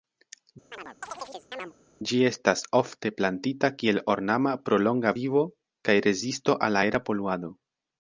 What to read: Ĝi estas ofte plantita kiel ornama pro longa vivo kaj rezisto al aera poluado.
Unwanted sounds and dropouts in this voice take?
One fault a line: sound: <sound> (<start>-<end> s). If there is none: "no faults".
sound: chirp (0.7-1.7 s)